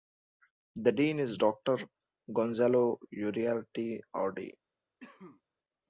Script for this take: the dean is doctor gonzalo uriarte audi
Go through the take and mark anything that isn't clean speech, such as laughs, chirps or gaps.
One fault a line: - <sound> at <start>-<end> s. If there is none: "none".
- cough at 5.0-5.4 s